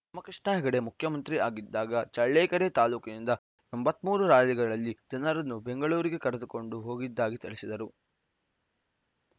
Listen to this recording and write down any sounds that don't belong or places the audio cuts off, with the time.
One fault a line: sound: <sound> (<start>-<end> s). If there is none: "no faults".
no faults